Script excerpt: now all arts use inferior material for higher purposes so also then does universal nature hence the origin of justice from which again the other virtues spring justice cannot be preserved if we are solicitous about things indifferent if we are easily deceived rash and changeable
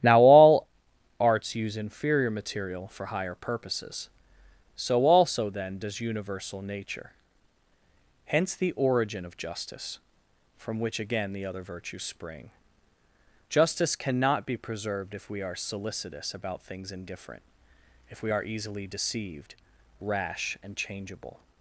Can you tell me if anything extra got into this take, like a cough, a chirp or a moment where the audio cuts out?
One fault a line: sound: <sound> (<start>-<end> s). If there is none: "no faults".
no faults